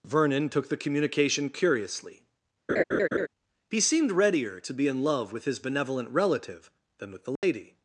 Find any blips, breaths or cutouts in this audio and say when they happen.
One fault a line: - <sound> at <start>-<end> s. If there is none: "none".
- laugh at 2.7-3.3 s
- dropout at 7.4-7.4 s